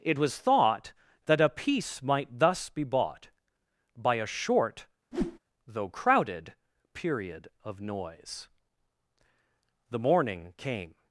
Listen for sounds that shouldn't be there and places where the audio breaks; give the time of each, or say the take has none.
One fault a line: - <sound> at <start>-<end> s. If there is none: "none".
- whoosh at 5.1-5.4 s